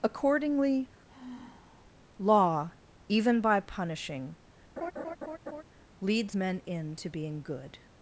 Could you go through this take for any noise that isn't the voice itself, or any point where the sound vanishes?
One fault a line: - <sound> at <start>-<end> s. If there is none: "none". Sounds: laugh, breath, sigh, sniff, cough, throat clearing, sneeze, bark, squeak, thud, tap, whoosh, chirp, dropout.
- sigh at 1.1-1.9 s
- laugh at 4.8-5.6 s